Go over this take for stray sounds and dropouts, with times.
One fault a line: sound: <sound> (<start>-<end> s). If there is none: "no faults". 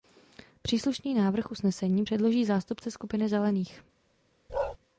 sound: bark (4.5-4.8 s)